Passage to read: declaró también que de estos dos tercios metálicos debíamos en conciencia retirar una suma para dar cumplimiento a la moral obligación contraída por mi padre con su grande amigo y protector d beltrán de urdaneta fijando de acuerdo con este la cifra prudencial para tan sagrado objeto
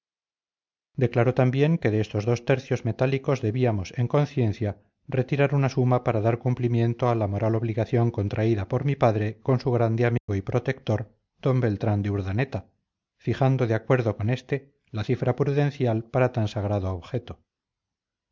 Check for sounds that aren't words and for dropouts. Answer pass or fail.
fail